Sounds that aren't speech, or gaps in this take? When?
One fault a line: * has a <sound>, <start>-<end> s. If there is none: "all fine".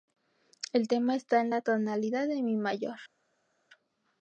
all fine